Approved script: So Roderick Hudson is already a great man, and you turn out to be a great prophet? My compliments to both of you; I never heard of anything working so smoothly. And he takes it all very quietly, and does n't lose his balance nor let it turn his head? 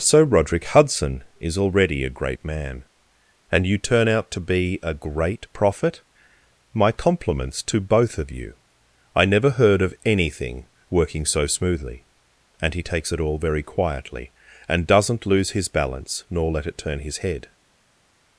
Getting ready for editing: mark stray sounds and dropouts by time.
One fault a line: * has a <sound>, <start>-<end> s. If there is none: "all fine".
all fine